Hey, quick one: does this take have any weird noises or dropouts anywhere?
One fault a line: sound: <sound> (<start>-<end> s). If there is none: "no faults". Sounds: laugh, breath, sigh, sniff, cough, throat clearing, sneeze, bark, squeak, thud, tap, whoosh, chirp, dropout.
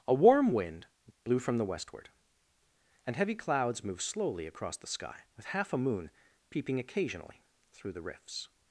no faults